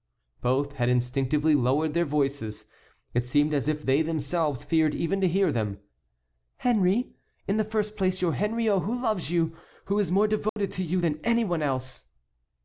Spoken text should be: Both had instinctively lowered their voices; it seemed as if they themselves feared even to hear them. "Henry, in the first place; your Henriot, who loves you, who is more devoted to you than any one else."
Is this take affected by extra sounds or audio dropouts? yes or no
yes